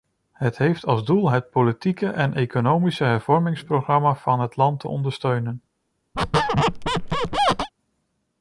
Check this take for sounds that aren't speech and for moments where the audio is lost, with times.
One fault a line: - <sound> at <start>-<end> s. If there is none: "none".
- squeak at 6.1-7.7 s